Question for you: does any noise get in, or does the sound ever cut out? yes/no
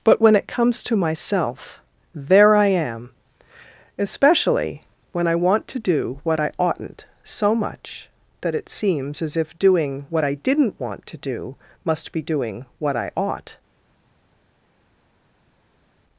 no